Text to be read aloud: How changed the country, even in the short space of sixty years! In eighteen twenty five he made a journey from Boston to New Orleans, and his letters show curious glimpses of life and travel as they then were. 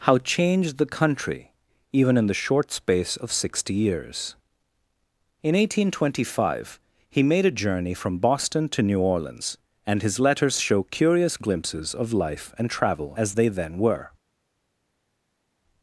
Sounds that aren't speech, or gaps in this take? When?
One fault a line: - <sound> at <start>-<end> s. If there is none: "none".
none